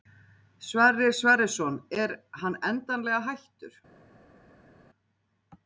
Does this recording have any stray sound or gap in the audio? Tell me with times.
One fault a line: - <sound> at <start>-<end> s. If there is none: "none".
none